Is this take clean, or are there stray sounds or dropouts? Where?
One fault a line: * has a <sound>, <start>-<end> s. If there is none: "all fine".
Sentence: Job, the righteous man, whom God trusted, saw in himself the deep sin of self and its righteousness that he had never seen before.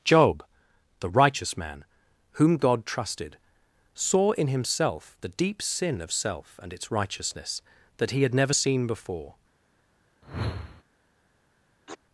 * has a whoosh, 10.2-10.8 s
* has a sneeze, 11.9-12.0 s